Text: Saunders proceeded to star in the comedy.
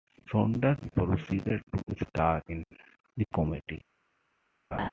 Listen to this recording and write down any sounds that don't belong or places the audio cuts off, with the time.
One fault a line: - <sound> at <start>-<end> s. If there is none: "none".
- laugh at 4.7-4.9 s